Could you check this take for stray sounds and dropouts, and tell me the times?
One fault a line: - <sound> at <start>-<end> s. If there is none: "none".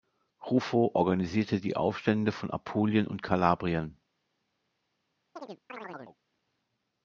- chirp at 5.4-6.2 s